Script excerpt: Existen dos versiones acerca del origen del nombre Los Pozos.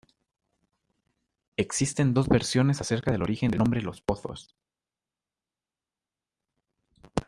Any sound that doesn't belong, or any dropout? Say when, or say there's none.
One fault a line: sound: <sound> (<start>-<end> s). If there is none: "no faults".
no faults